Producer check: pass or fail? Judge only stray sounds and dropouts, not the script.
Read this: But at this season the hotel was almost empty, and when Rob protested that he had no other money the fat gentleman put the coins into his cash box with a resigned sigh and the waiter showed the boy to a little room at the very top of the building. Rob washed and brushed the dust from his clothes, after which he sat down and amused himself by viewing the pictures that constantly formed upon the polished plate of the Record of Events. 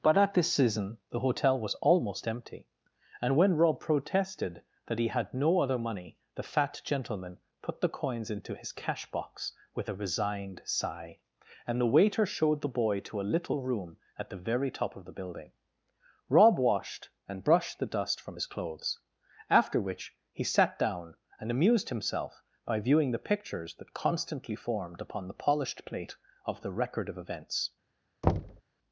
fail